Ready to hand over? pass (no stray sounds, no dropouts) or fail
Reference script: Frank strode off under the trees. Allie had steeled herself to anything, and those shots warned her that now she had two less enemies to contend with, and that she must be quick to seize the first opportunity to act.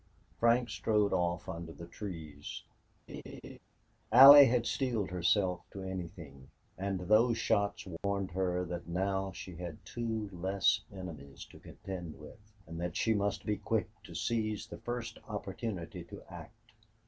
fail